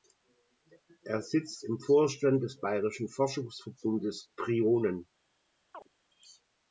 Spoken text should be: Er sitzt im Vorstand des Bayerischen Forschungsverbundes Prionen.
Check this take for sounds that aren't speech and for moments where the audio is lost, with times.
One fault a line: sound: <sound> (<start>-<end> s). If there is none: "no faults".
sound: chirp (5.7-5.9 s)